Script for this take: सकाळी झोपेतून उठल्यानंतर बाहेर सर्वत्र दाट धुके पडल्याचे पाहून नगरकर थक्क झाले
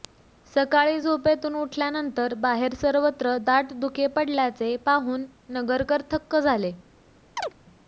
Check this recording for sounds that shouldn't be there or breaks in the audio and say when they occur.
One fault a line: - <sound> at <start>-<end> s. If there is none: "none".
- chirp at 7.4-7.5 s